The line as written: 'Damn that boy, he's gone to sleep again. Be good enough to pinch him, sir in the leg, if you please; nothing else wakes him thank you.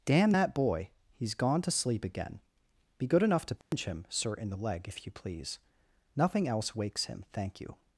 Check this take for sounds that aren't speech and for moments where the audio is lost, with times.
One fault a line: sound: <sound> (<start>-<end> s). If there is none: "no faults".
sound: dropout (3.6-3.7 s)